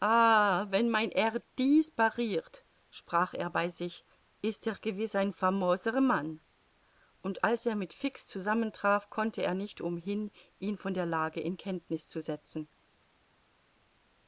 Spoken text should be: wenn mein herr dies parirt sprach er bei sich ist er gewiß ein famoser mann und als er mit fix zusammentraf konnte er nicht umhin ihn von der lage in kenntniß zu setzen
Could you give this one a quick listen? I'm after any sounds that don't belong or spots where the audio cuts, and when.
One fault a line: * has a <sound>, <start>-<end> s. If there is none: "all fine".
all fine